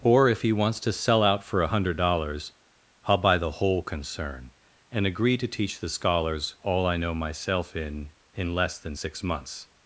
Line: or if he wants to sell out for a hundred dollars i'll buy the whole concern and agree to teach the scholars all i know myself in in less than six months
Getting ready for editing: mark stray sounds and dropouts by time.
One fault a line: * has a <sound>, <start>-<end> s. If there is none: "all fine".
all fine